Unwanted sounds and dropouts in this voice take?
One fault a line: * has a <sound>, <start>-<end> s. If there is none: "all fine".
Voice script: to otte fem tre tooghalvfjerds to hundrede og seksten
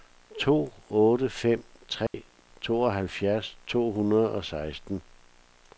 * has a dropout, 2.1-2.1 s